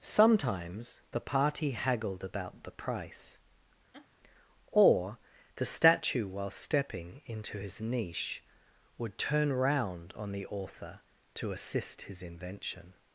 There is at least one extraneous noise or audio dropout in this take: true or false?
true